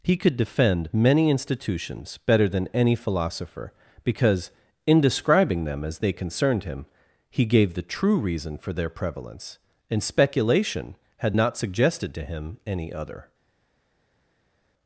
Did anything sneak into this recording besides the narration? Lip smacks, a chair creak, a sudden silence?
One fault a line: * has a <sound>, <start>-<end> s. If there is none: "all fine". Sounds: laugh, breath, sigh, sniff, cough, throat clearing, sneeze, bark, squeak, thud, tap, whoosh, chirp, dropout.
all fine